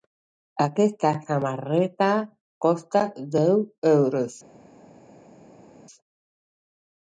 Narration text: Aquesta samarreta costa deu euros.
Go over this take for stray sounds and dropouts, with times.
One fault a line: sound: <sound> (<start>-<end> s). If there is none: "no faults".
no faults